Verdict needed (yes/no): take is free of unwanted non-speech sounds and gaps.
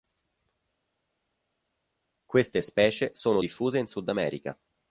yes